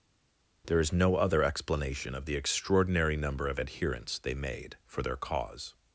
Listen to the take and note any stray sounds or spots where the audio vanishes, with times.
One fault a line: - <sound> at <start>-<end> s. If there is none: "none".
none